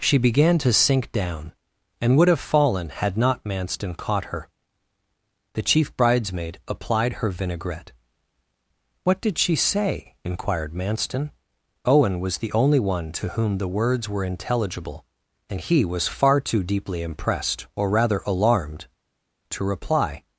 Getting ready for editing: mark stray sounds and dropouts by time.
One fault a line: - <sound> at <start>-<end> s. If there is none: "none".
none